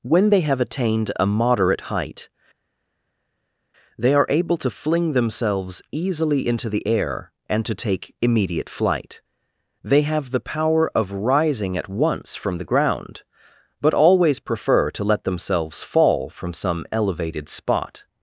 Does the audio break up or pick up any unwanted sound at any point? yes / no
no